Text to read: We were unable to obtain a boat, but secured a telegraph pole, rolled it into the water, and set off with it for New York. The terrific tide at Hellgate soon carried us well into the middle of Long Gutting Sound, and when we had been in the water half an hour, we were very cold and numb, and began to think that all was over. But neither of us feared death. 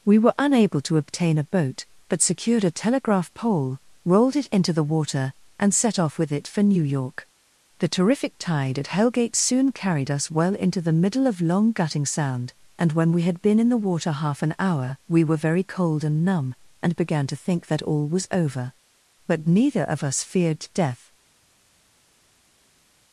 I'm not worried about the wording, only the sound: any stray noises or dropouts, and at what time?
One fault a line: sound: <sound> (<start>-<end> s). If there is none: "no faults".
no faults